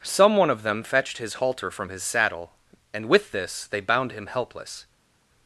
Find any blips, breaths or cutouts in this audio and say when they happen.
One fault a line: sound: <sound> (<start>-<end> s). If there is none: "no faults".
no faults